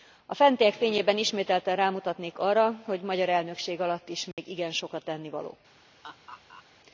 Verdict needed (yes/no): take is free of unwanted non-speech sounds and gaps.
no